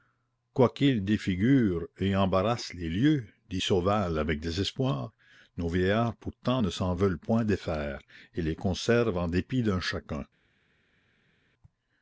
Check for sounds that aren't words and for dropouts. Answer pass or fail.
pass